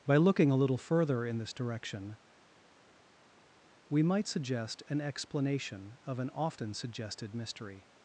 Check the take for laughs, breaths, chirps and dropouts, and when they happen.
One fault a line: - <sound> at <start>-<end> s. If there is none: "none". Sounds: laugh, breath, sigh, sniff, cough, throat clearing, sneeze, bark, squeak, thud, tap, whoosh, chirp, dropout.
none